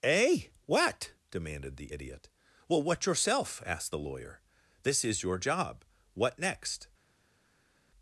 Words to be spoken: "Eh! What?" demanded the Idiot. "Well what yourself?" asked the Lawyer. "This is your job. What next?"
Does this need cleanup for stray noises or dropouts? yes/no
no